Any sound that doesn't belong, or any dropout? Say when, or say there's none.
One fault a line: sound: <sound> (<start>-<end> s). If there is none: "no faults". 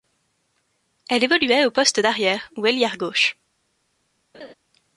sound: laugh (4.3-4.5 s)